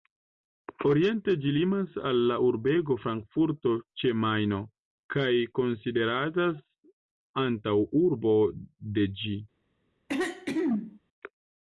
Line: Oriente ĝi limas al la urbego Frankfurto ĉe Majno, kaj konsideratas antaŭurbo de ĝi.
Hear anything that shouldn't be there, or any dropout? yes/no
yes